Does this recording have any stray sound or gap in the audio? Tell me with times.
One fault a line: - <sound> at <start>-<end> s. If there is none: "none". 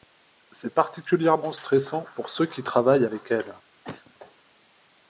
- cough at 3.8-4.1 s